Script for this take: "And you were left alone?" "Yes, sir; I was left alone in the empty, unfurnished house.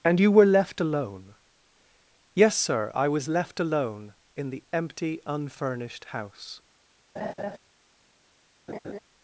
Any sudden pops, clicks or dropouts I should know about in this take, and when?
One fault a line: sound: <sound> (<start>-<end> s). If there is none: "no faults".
sound: laugh (7.2-7.6 s)
sound: laugh (8.7-9.0 s)